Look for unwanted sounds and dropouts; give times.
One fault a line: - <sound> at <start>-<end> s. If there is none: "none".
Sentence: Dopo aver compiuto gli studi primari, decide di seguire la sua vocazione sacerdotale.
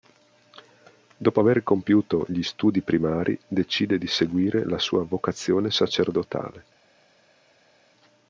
none